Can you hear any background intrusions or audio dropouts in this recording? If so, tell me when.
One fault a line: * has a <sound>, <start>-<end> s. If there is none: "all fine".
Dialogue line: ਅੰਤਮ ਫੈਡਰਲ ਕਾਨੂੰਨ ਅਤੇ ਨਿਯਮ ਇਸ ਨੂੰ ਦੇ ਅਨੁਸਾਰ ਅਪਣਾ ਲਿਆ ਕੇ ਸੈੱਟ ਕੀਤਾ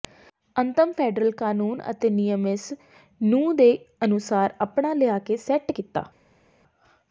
all fine